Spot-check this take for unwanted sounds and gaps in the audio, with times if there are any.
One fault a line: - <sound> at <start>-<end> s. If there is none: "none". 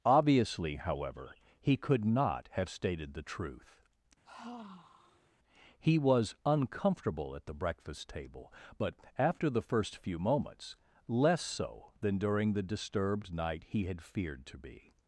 - sigh at 4.2-5.4 s